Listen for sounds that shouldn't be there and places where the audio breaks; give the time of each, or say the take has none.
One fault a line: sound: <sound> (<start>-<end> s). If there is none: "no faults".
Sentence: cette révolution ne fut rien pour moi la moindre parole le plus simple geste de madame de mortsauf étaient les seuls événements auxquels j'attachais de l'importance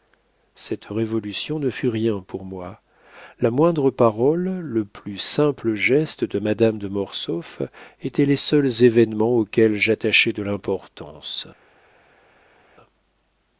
no faults